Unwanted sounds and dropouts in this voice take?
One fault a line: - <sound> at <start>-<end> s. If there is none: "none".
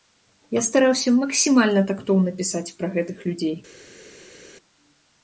none